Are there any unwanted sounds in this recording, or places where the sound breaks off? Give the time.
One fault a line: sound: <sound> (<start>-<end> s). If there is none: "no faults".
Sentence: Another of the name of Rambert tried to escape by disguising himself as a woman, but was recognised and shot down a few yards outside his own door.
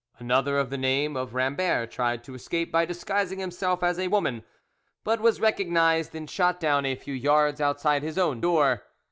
no faults